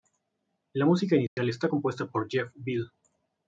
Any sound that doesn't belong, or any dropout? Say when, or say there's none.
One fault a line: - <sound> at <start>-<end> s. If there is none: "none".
- dropout at 1.3-1.4 s